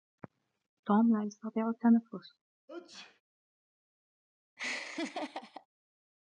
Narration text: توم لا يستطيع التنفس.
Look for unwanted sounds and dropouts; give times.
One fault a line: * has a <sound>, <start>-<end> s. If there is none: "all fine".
* has a sneeze, 2.7-3.2 s
* has a laugh, 4.6-5.7 s